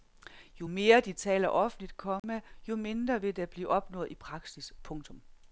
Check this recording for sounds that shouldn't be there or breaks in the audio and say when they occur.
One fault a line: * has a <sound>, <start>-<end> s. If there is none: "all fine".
* has a dropout, 2.2-2.2 s